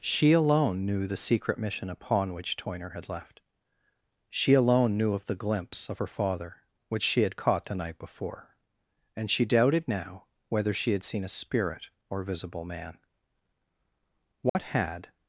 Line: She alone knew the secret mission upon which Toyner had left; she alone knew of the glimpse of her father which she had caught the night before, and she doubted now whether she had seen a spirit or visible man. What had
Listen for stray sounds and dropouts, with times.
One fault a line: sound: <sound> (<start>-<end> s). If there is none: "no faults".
sound: dropout (14.5-14.6 s)